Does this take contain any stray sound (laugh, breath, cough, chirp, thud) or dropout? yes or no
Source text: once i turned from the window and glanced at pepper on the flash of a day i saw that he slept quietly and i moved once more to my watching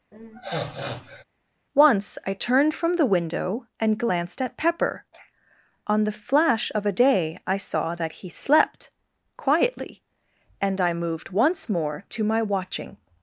yes